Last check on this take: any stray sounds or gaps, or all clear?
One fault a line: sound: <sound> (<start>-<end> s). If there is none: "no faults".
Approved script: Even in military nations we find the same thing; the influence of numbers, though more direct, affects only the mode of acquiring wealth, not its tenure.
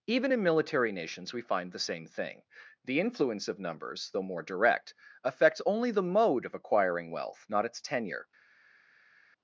no faults